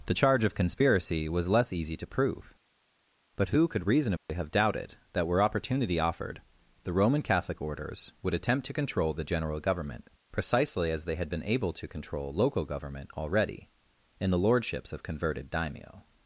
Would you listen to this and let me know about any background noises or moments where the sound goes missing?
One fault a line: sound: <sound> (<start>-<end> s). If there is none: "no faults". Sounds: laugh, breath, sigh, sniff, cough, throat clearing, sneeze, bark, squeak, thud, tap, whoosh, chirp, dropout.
sound: dropout (4.2-4.3 s)